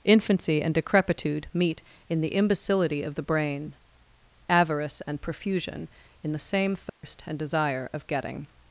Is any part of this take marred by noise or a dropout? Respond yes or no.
yes